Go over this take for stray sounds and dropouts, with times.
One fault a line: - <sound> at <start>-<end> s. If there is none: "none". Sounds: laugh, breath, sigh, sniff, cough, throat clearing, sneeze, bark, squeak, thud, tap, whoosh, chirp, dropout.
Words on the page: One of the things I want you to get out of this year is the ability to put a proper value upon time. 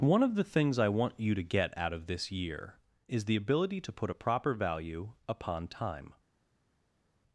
none